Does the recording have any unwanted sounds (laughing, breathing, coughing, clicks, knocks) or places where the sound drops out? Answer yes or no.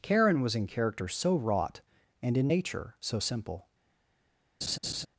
yes